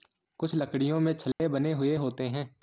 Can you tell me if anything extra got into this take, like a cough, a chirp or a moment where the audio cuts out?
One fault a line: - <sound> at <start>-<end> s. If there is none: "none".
- dropout at 1.3-1.4 s